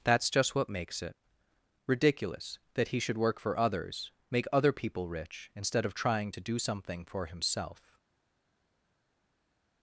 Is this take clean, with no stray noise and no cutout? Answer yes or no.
yes